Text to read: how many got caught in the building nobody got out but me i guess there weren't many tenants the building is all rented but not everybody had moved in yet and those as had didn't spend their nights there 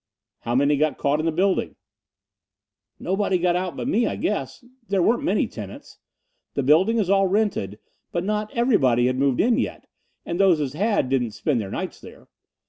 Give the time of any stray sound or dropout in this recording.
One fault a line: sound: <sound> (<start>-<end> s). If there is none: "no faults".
no faults